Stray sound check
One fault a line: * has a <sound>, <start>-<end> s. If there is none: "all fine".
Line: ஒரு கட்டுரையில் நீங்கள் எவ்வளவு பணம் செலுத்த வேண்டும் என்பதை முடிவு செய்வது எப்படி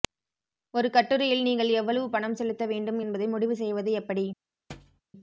* has a thud, 4.7-5.0 s